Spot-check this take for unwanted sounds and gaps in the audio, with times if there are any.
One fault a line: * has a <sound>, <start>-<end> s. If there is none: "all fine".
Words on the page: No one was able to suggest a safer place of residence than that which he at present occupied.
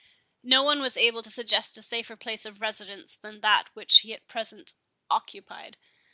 all fine